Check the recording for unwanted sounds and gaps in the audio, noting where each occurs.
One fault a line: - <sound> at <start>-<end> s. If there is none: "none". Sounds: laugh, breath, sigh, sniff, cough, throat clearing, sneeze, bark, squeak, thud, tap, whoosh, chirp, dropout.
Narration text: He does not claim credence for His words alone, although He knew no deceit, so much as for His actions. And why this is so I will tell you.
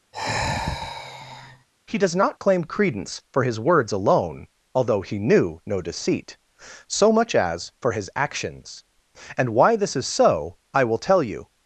- sigh at 0.1-1.7 s